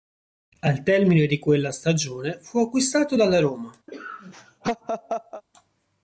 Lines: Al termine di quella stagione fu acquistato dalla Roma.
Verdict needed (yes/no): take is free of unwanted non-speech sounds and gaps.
no